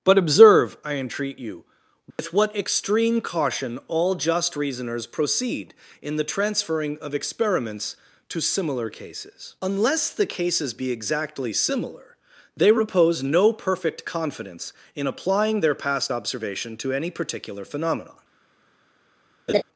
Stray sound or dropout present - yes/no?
yes